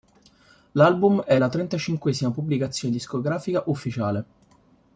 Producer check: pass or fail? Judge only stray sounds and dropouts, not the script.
pass